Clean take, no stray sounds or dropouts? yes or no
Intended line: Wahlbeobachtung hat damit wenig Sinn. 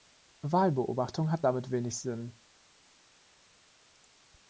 yes